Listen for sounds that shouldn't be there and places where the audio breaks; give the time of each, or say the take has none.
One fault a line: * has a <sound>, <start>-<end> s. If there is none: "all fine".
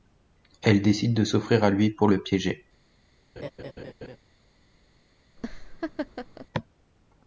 * has a laugh, 3.4-4.2 s
* has a laugh, 5.4-6.5 s